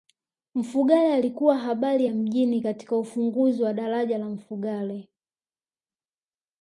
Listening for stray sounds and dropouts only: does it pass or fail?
pass